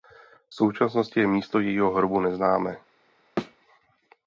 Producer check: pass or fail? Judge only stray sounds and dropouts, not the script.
fail